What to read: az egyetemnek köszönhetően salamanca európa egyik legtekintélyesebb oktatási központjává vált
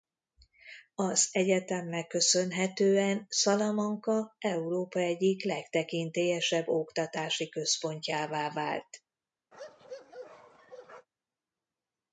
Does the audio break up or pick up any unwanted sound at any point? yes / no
yes